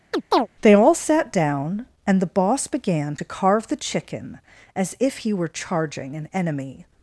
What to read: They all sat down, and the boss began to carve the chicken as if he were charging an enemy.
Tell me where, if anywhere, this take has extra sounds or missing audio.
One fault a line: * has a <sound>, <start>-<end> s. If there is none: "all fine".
* has a chirp, 0.1-0.5 s